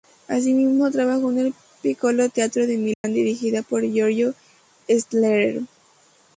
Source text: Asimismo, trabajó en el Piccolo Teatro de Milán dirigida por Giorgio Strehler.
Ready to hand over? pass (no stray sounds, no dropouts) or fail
fail